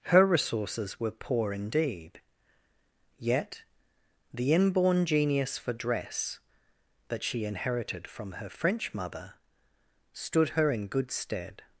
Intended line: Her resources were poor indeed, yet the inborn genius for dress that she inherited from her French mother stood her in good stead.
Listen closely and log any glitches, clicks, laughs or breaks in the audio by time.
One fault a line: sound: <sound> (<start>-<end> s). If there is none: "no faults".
no faults